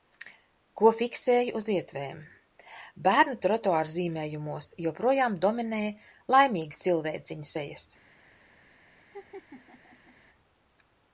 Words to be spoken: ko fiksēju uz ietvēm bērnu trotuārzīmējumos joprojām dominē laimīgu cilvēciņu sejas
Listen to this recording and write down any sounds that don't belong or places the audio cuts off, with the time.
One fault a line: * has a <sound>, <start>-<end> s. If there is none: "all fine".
* has a laugh, 9.0-10.2 s